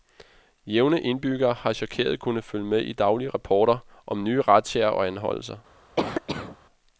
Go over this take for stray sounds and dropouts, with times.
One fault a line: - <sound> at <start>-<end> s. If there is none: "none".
- cough at 6.0-6.6 s